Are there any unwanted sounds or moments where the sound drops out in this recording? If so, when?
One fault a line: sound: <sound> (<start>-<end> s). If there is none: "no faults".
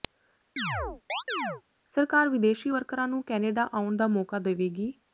sound: chirp (0.6-1.6 s)